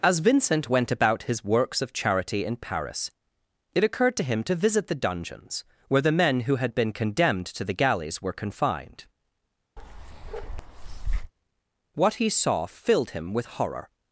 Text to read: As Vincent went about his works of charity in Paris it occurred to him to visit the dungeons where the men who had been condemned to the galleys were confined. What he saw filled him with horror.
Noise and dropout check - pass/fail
fail